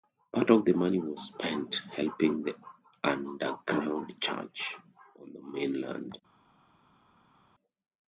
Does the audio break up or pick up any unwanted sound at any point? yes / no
no